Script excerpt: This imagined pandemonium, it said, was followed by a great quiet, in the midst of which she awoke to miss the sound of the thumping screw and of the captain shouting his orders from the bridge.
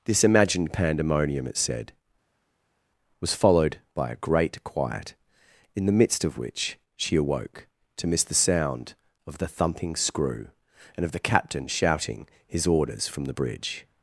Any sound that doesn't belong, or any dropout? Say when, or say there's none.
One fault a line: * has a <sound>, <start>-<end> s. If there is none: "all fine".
all fine